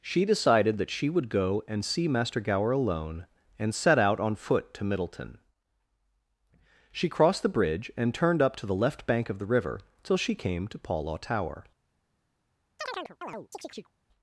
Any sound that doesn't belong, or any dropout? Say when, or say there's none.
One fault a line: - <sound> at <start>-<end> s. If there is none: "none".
- chirp at 12.8-13.9 s